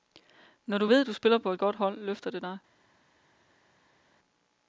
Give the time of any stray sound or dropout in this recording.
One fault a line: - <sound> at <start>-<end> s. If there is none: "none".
none